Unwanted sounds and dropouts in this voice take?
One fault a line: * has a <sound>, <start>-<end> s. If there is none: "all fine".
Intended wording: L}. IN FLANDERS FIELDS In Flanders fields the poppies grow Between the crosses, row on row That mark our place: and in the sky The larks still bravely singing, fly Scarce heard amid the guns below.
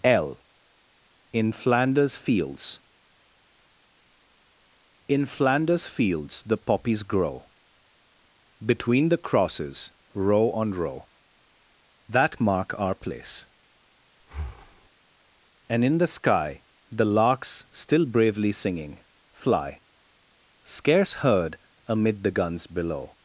* has a breath, 14.2-14.9 s